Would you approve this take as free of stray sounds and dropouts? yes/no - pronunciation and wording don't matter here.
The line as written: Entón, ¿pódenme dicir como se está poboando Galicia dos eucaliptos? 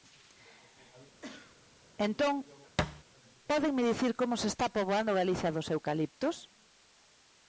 no